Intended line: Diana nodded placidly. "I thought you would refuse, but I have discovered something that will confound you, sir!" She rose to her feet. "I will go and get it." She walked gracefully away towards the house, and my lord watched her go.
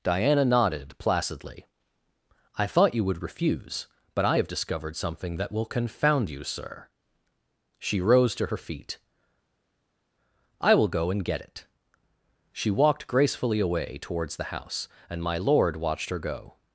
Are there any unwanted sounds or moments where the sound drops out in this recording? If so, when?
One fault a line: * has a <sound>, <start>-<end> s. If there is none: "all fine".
all fine